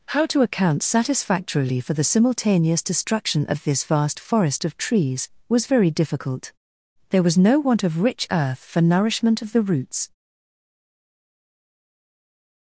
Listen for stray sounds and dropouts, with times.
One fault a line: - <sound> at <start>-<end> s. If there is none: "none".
none